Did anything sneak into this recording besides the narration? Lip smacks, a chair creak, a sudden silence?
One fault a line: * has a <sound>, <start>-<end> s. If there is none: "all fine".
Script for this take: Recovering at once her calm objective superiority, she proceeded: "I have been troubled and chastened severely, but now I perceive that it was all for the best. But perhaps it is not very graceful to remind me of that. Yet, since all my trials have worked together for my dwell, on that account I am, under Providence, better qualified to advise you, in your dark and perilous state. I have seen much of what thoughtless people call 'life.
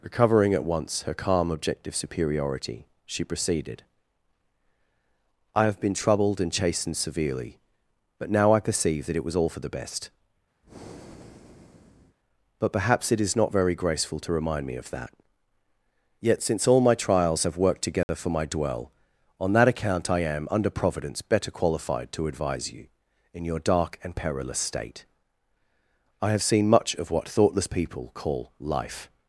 * has a breath, 10.6-12.2 s
* has a dropout, 18.0-18.1 s